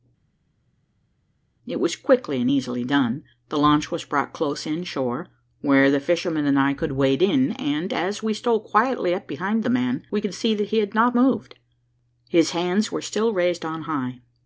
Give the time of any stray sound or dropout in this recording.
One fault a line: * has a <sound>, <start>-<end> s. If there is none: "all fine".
all fine